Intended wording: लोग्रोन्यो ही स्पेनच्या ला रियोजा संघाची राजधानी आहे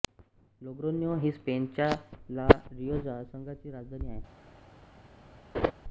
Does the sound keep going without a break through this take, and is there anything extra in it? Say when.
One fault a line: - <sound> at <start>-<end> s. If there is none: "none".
- laugh at 5.5-5.7 s